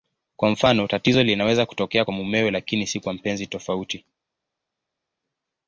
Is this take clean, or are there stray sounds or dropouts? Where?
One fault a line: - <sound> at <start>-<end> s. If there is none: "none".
none